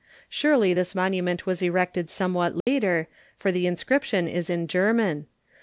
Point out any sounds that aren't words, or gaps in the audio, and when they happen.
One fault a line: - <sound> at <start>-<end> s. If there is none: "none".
- dropout at 2.6-2.7 s